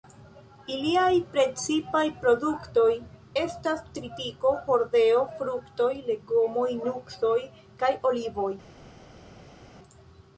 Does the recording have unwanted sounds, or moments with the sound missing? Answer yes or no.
no